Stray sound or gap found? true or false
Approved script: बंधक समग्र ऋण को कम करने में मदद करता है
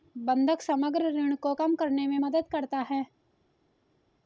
false